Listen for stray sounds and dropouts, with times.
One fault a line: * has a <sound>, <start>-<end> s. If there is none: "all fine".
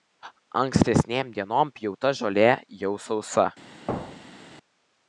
* has a thud, 3.9-4.5 s